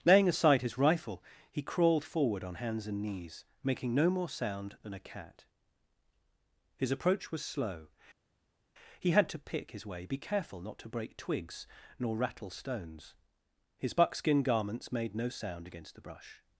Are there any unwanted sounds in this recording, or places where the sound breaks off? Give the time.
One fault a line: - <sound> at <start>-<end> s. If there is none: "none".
none